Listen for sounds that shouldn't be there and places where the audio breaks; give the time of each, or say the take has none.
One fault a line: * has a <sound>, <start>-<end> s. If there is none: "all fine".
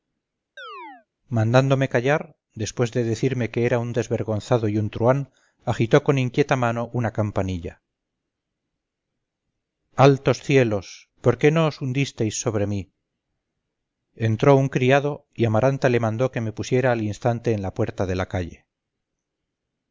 * has a chirp, 0.6-1.1 s